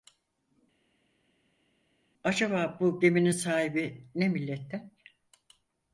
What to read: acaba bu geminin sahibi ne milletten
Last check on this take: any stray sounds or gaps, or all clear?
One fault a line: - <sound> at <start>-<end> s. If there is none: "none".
none